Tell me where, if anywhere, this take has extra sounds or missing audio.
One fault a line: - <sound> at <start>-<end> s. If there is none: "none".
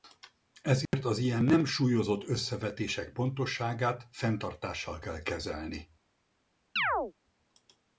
- dropout at 0.9-0.9 s
- chirp at 6.8-7.1 s